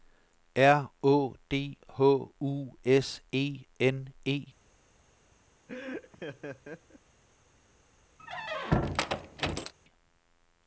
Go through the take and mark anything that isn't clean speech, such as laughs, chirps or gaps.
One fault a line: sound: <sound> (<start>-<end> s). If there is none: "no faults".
sound: laugh (5.7-7.0 s)
sound: squeak (8.2-9.7 s)